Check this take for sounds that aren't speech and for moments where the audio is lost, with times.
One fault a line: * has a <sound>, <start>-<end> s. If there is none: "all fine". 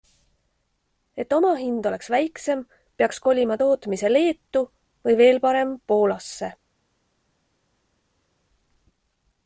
all fine